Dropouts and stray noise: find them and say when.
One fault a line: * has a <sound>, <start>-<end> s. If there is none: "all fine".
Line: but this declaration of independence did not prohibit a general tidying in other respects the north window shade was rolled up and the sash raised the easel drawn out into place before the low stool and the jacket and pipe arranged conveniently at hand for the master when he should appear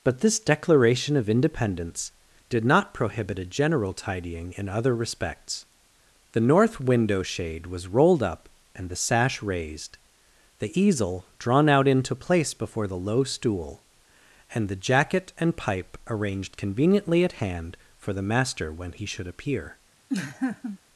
* has a laugh, 20.1-20.8 s